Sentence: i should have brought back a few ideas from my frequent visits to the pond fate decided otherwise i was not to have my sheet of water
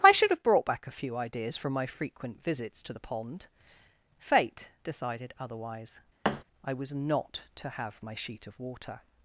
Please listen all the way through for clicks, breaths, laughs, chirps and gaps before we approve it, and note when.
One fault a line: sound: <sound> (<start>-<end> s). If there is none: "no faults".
sound: thud (6.2-6.4 s)